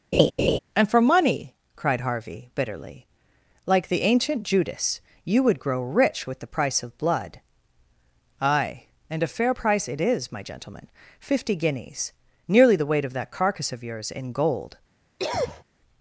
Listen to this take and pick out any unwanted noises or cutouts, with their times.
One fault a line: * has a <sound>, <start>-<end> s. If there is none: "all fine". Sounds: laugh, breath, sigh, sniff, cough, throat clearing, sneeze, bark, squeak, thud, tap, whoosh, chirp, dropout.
* has a laugh, 0.1-0.6 s
* has a cough, 15.2-15.6 s